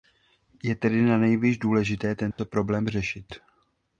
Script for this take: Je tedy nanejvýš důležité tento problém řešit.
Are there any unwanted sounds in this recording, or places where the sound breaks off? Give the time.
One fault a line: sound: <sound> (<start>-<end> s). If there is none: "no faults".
sound: dropout (2.3-2.4 s)